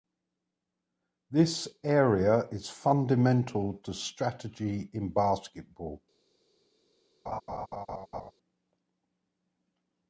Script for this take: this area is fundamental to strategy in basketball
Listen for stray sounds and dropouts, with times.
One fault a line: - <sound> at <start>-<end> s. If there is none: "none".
- laugh at 7.3-8.3 s